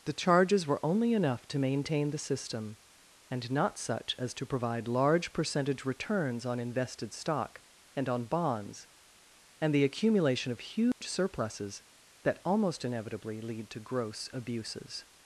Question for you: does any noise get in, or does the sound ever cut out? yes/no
yes